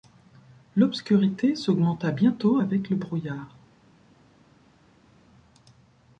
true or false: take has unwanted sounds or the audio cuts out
false